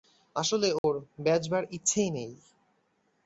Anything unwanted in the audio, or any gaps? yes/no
yes